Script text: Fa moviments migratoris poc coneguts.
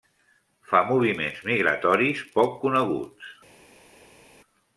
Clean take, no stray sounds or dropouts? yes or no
yes